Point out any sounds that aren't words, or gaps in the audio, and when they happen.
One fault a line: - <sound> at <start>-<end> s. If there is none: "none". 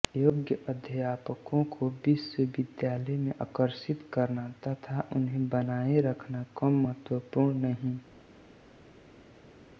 none